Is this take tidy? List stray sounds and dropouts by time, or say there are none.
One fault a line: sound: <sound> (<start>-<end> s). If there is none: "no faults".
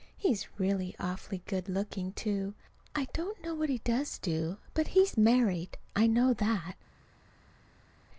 no faults